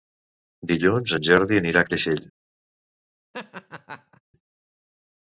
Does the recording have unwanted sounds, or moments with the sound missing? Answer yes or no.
yes